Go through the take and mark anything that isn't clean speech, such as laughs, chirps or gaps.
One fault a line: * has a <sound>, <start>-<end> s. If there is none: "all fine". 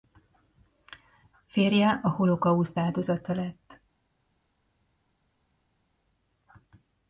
all fine